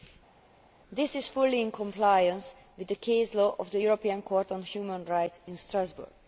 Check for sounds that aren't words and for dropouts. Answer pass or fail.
pass